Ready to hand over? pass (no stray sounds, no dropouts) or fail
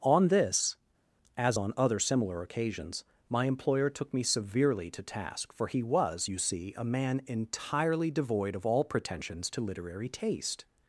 pass